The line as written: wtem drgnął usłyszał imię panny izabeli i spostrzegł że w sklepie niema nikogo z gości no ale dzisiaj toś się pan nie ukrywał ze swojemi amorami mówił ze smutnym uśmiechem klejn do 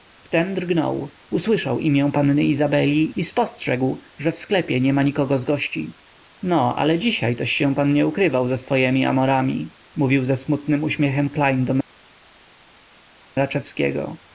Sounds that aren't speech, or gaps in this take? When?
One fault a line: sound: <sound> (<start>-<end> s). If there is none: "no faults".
no faults